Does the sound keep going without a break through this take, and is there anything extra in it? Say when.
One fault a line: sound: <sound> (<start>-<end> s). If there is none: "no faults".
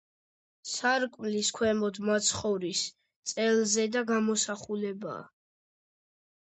no faults